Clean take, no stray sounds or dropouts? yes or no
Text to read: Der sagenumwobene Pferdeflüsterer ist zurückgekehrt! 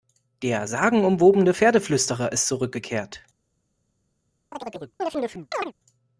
no